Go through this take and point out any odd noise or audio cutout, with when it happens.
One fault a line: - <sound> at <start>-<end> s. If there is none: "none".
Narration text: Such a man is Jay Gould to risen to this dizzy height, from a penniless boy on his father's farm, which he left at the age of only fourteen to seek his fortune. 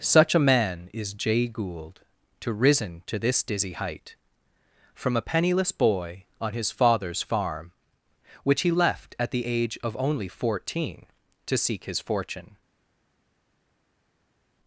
none